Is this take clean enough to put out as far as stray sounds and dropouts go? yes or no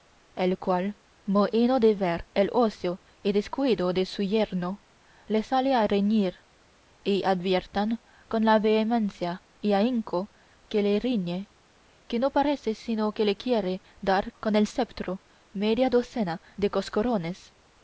yes